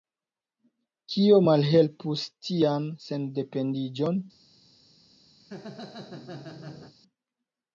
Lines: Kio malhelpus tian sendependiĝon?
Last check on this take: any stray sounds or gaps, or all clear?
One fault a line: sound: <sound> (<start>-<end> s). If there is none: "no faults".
sound: laugh (5.4-7.0 s)